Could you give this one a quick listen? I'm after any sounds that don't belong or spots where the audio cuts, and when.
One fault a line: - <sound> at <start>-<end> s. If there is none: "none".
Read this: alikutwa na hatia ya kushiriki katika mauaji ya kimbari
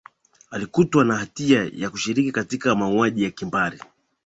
none